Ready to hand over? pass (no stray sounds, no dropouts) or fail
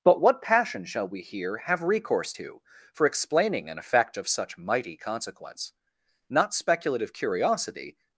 pass